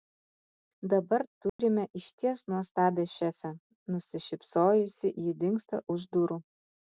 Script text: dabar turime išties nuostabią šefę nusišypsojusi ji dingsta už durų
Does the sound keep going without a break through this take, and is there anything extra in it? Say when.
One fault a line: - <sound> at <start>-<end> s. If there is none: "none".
- dropout at 1.5-1.6 s